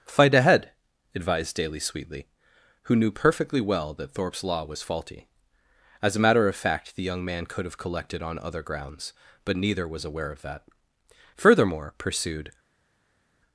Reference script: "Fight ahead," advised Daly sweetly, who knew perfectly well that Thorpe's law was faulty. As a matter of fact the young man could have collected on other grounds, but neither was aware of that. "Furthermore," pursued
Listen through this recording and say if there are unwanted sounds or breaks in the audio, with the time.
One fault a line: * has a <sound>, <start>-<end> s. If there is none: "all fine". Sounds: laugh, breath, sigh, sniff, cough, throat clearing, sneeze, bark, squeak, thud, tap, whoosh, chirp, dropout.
all fine